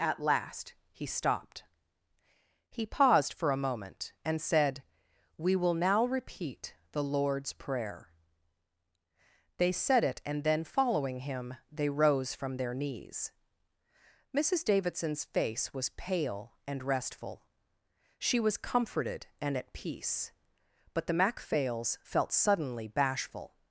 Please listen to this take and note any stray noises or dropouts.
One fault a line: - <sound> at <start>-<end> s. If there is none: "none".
none